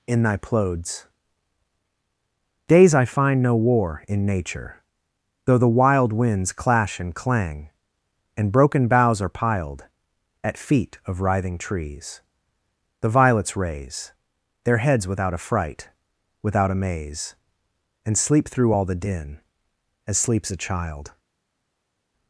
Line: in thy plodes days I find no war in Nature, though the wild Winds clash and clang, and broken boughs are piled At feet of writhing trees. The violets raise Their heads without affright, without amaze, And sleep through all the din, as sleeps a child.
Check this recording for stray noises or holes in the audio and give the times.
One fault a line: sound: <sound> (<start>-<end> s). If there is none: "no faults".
no faults